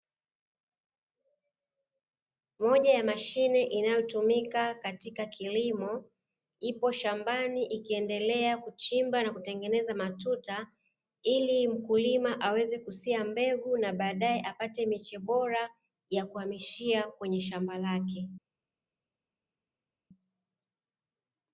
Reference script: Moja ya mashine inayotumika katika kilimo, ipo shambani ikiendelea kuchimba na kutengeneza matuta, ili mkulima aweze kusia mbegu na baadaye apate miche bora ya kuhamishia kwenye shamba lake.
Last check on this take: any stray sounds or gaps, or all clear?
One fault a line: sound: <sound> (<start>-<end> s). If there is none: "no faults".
no faults